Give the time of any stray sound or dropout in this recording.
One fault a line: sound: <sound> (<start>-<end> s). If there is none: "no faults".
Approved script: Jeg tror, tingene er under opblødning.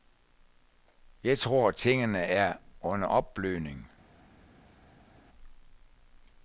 no faults